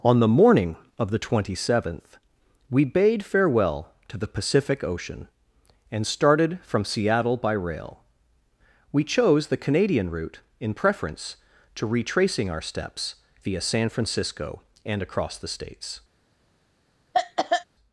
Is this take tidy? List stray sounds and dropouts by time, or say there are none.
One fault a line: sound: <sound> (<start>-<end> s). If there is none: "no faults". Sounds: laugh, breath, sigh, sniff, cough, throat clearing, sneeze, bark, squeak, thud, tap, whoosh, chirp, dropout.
sound: cough (17.1-17.6 s)